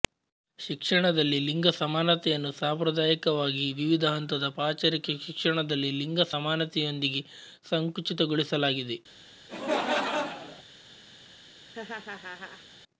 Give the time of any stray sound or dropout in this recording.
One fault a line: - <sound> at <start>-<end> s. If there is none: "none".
- laugh at 9.5-10.6 s
- laugh at 11.7-12.7 s